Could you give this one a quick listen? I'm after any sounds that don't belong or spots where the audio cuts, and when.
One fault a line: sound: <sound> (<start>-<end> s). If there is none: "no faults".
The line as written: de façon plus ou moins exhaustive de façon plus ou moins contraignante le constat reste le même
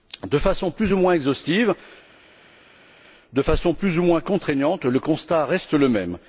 no faults